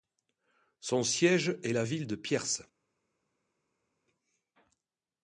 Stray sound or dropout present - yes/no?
no